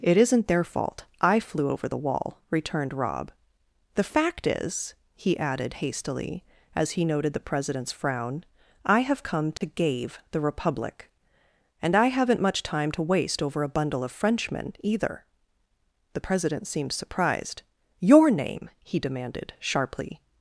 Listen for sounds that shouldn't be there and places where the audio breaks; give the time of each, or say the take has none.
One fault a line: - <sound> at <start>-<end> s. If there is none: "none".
- dropout at 9.6-9.6 s